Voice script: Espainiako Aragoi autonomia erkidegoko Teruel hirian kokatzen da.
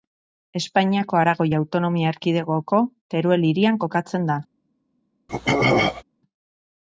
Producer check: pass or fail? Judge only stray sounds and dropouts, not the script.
fail